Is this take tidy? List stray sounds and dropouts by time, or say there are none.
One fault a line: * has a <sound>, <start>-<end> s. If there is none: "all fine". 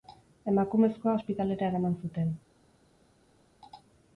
all fine